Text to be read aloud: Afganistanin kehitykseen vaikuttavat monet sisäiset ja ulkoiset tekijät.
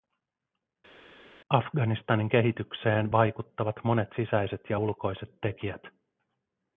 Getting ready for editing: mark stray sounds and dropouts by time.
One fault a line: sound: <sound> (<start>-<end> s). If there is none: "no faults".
no faults